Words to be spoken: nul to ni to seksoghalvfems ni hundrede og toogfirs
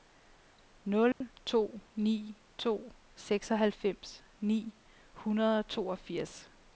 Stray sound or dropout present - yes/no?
yes